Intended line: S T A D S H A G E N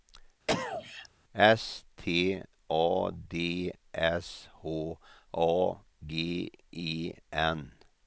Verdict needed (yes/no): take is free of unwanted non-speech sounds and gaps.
no